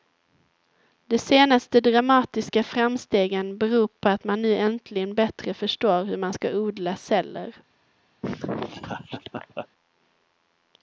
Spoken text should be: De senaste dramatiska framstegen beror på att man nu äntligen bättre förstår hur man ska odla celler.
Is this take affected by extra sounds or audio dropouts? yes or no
yes